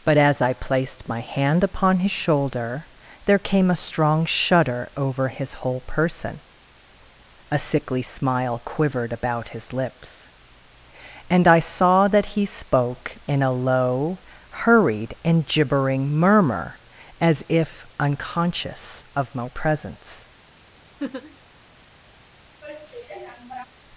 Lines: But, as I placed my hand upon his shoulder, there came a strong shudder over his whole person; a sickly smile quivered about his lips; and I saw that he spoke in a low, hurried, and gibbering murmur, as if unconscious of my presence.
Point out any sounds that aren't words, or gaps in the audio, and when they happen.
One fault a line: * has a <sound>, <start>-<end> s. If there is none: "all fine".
* has a laugh, 21.0-21.4 s
* has a sigh, 22.6-23.7 s